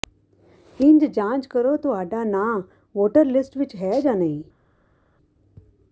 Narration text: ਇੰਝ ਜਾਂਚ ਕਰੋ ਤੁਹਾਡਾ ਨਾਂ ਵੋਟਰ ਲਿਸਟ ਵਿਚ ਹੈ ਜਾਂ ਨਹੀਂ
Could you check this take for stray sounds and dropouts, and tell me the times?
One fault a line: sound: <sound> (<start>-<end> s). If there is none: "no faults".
no faults